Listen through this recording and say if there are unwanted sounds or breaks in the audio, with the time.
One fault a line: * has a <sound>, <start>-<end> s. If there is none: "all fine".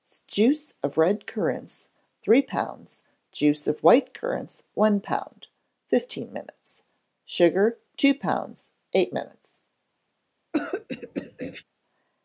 * has a throat clearing, 10.5-11.6 s